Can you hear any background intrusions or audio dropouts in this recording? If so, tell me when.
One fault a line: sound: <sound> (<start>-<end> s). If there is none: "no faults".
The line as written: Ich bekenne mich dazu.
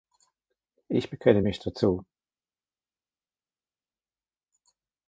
no faults